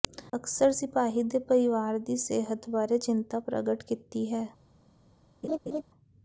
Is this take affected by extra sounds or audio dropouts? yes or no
yes